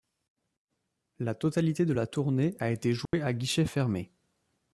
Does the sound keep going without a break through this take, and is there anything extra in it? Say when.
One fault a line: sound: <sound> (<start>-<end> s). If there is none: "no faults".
sound: dropout (3.1-3.1 s)